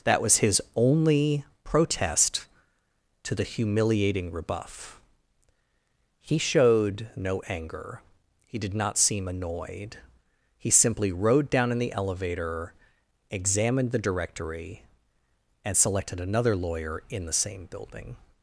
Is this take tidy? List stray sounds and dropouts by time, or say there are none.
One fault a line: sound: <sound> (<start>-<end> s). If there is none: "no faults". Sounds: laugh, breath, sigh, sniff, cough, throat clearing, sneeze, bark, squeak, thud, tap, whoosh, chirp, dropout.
no faults